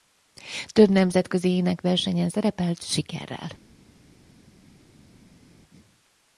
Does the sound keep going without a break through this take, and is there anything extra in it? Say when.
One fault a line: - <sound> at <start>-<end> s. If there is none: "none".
none